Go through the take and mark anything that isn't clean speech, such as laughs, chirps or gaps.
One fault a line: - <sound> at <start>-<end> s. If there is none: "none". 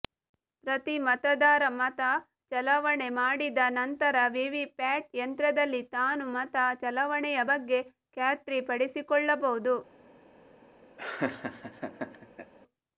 - laugh at 11.0-12.5 s